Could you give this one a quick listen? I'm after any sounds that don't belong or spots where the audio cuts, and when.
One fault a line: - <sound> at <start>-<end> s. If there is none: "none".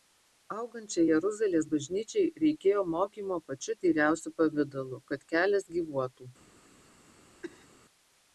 - cough at 7.4-7.7 s